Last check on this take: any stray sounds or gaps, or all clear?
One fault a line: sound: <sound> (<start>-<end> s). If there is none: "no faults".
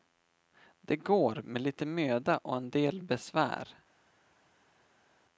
no faults